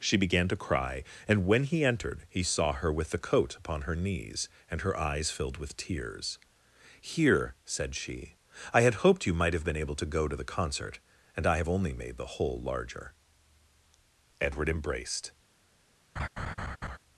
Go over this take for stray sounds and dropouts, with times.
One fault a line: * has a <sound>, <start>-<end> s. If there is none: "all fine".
* has a laugh, 16.2-17.0 s